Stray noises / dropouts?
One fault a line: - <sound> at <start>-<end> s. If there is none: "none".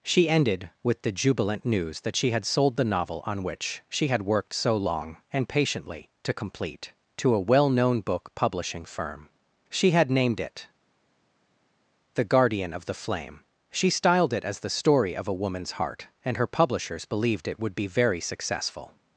none